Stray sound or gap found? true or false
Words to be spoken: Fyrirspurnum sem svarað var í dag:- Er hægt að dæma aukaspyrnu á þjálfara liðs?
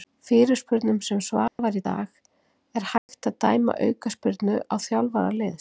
true